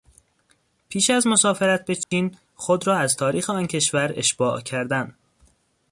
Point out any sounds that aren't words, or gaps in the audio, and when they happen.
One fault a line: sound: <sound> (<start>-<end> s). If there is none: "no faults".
sound: dropout (2.0-2.1 s)